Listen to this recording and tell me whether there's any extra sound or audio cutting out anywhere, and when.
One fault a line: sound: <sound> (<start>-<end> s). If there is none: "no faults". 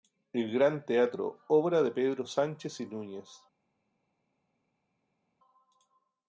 no faults